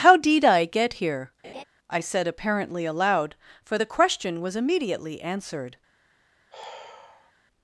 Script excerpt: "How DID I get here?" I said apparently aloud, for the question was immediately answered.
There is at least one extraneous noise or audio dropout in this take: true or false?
true